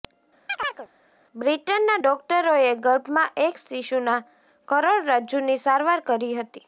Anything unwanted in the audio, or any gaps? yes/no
yes